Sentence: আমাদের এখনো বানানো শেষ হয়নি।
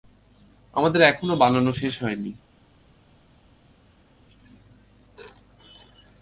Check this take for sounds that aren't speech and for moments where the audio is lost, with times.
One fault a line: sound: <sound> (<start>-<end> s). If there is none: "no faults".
no faults